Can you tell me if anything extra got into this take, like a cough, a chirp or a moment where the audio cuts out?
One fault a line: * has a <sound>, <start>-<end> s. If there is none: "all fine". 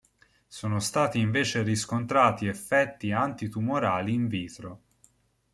all fine